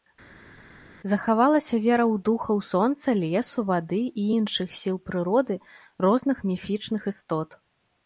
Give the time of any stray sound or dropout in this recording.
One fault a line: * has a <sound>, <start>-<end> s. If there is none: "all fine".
all fine